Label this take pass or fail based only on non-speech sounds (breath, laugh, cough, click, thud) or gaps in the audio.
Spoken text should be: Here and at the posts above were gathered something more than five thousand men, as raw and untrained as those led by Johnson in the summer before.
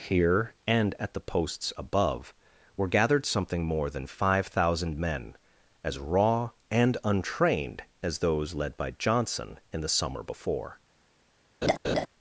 fail